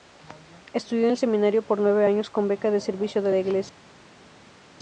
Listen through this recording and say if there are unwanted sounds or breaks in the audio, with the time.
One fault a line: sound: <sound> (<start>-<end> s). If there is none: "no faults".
no faults